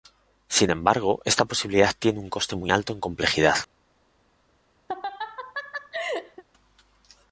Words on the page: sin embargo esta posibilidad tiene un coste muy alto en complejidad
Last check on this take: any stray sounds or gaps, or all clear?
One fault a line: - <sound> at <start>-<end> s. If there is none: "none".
- laugh at 4.9-6.4 s